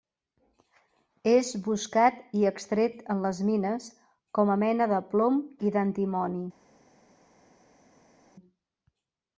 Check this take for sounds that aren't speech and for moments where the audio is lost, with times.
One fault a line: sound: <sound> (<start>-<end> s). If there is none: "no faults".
no faults